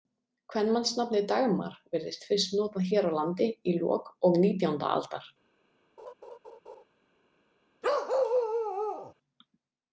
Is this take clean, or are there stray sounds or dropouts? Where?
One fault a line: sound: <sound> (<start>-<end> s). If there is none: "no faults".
sound: laugh (6.0-6.8 s)
sound: bark (7.8-9.1 s)